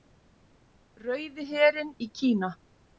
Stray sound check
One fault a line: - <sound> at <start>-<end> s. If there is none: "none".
none